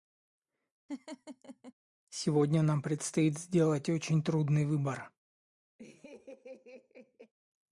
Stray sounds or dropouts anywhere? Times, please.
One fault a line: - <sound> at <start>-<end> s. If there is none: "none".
- laugh at 0.9-1.7 s
- laugh at 5.8-7.3 s